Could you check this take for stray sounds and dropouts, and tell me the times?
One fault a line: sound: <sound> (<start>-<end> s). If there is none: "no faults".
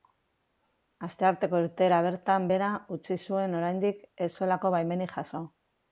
no faults